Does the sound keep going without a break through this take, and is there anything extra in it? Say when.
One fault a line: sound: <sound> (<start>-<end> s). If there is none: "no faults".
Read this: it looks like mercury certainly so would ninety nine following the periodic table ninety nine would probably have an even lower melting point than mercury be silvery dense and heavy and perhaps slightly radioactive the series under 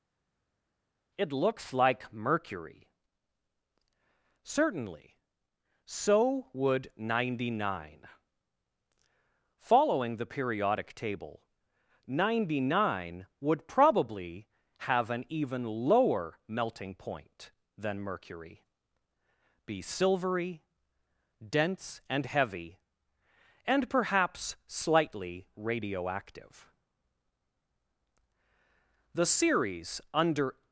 no faults